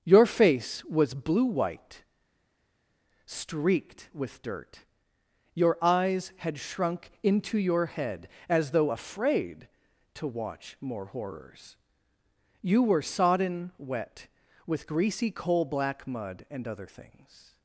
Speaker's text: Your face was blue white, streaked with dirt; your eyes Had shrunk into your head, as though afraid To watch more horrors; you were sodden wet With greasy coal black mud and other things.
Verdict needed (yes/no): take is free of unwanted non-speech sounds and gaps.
yes